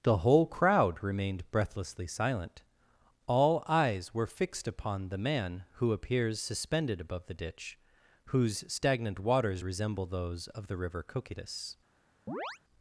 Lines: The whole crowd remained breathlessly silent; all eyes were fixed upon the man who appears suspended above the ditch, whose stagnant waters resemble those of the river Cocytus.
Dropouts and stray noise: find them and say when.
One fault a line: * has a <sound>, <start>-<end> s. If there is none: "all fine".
* has a chirp, 12.3-12.6 s